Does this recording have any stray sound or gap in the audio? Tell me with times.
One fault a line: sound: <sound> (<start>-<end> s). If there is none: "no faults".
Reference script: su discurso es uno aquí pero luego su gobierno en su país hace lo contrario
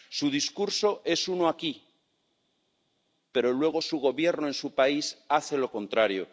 no faults